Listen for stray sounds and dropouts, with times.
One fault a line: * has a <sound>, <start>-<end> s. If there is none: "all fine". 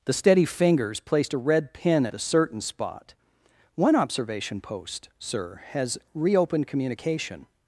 all fine